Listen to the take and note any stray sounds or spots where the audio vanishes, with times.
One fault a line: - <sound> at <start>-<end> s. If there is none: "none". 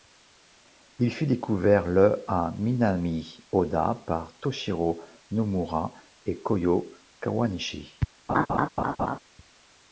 - laugh at 8.3-9.2 s